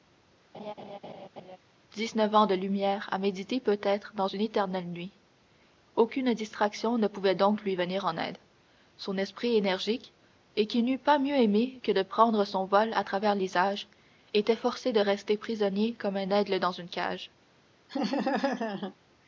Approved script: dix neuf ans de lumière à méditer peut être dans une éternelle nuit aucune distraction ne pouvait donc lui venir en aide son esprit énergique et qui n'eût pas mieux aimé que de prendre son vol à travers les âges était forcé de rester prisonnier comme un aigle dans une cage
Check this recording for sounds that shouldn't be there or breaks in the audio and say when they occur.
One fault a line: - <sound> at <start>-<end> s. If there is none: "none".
- laugh at 0.5-1.6 s
- laugh at 17.9-18.9 s